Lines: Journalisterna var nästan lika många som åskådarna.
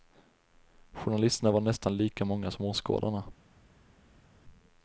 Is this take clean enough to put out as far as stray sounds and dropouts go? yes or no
yes